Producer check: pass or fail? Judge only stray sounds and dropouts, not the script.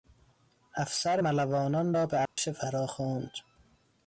fail